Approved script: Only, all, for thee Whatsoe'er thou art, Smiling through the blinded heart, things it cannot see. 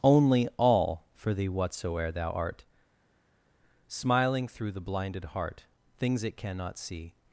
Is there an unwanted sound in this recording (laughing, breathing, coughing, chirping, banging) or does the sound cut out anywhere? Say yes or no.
no